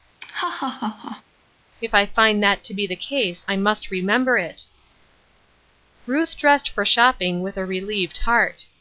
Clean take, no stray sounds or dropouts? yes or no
no